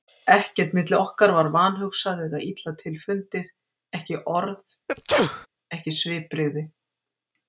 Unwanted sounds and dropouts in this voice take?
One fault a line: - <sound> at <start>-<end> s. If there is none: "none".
- sneeze at 4.9-5.5 s